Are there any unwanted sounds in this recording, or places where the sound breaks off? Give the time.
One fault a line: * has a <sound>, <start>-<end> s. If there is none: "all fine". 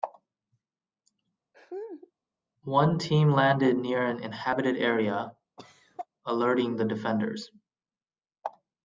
* has a laugh, 1.5-2.1 s
* has a cough, 5.6-6.1 s